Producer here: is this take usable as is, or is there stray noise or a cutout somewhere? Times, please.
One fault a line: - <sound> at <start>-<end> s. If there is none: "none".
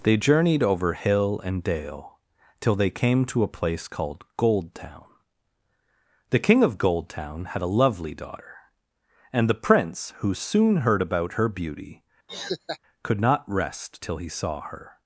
- laugh at 12.3-12.8 s